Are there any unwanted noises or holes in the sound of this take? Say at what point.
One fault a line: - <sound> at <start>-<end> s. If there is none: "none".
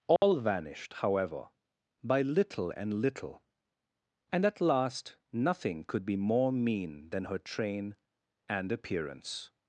- dropout at 0.2-0.2 s